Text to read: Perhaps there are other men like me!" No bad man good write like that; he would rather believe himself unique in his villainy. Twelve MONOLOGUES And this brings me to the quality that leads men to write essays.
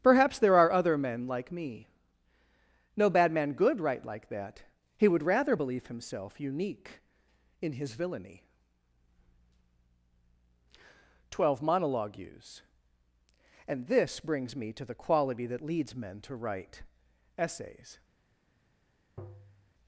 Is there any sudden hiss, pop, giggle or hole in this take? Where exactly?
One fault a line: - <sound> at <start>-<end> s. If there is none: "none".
- tap at 19.2-19.7 s